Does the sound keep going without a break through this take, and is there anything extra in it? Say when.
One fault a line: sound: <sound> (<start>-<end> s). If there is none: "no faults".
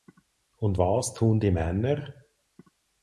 no faults